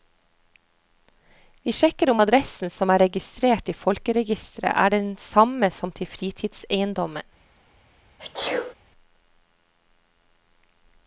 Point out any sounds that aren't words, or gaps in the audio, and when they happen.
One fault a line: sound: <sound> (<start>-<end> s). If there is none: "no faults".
sound: sneeze (8.2-8.7 s)